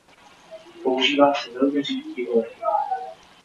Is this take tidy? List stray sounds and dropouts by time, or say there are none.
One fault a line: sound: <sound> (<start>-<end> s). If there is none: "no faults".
no faults